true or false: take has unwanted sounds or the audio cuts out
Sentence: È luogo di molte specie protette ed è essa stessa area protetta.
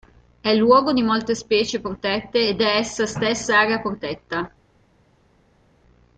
false